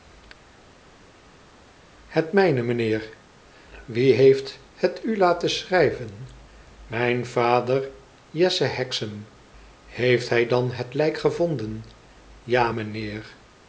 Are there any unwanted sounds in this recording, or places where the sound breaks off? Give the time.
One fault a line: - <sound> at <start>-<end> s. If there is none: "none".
none